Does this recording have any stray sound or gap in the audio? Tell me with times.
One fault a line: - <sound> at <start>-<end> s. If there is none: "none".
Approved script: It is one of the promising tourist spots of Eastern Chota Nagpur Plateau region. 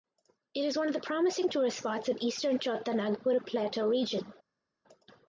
none